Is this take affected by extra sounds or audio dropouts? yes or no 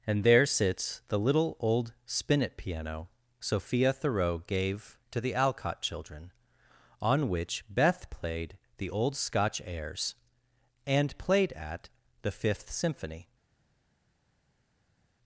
no